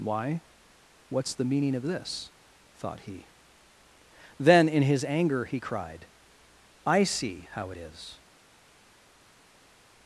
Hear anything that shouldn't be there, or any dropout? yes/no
no